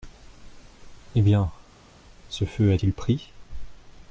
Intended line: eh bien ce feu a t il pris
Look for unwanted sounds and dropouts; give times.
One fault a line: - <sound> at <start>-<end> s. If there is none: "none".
none